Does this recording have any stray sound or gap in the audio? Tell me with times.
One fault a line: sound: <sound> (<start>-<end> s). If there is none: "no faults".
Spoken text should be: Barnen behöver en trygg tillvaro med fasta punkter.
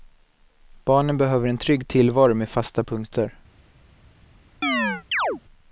sound: chirp (4.6-5.4 s)